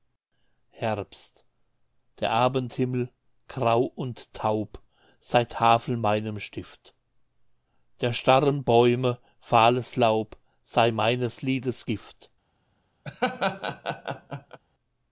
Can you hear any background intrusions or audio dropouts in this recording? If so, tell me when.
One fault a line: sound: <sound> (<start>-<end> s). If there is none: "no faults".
sound: laugh (13.0-14.6 s)